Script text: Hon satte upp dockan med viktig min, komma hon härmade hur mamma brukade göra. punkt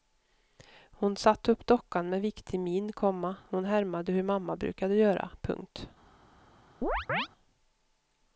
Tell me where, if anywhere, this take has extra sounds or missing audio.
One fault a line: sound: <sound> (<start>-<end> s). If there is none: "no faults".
sound: chirp (6.8-7.3 s)